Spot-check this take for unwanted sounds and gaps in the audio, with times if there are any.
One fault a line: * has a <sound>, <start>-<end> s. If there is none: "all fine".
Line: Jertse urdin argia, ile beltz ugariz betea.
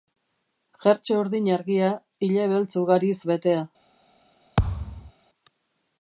* has a thud, 4.6-5.1 s